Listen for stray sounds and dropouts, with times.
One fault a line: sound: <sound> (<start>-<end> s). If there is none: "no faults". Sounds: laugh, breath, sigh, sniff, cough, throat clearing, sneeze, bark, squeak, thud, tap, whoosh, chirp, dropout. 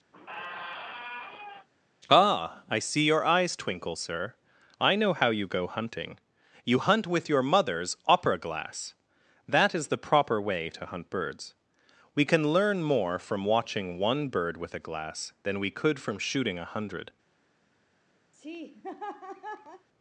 sound: squeak (0.1-1.7 s)
sound: laugh (18.3-19.9 s)